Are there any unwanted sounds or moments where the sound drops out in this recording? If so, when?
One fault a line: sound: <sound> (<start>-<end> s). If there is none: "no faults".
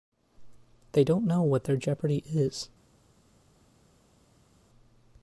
no faults